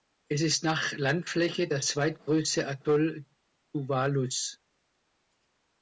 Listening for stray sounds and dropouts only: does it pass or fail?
pass